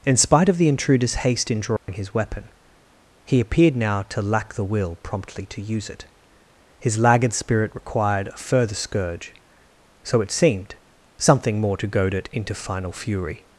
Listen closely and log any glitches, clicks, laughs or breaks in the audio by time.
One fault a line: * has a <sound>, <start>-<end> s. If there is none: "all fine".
* has a dropout, 1.8-1.9 s